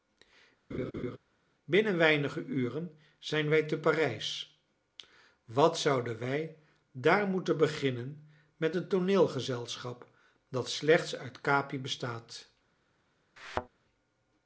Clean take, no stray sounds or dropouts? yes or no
no